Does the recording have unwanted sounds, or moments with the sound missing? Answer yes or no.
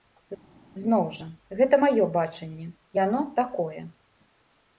no